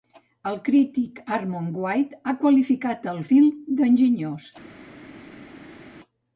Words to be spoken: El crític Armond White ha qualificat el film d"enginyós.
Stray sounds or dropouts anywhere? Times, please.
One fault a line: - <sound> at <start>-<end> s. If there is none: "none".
none